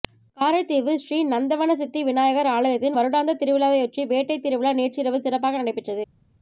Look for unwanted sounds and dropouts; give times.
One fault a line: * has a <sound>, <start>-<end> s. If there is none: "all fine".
all fine